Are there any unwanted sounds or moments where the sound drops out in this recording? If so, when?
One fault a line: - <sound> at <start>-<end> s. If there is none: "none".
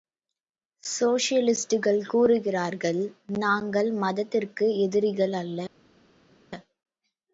none